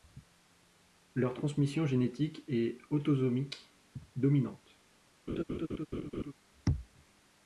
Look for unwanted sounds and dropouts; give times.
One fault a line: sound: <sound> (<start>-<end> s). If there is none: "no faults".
sound: laugh (5.3-6.3 s)